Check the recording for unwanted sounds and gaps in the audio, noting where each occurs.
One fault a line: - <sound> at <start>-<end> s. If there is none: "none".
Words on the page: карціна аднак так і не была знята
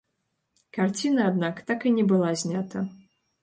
none